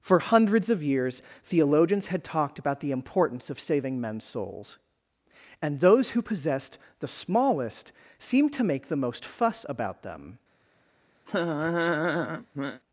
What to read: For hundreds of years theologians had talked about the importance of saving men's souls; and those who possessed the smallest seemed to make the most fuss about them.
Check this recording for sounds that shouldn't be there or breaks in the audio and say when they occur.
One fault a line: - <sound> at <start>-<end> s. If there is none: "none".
- laugh at 11.3-12.8 s